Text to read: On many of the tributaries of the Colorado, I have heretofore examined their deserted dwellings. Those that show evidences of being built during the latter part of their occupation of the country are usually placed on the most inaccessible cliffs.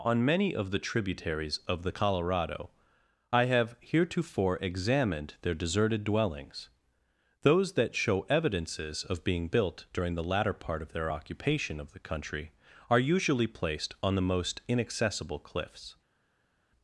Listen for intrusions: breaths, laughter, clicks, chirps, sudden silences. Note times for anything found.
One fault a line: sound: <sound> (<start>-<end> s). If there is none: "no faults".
no faults